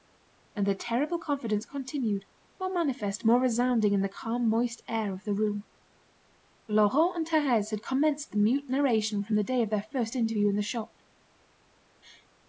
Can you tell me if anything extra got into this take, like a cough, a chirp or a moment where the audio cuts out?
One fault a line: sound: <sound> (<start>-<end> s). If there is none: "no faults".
no faults